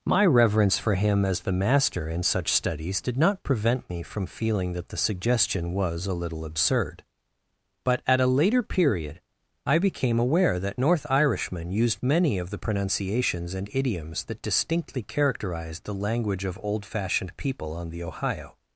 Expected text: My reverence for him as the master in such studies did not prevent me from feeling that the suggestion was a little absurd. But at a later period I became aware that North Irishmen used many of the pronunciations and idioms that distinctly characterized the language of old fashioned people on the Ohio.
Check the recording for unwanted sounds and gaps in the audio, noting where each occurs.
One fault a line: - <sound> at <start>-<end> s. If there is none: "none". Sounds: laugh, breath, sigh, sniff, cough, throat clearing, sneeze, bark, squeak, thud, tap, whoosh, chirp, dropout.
none